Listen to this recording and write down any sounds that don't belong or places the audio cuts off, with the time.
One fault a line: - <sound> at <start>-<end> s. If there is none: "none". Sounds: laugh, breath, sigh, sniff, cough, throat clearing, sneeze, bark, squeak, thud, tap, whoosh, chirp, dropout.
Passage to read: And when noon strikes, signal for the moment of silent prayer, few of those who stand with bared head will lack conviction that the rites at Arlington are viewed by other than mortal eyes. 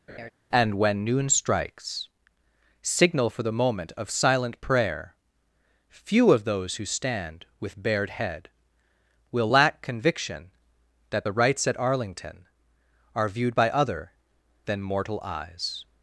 - laugh at 0.1-0.3 s